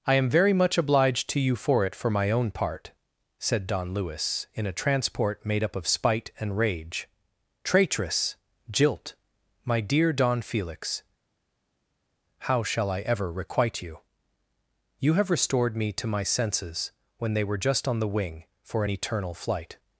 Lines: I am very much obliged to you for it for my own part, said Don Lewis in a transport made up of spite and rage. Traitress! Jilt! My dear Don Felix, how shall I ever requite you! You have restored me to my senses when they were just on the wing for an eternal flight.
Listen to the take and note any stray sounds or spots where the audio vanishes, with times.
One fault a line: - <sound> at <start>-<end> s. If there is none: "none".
none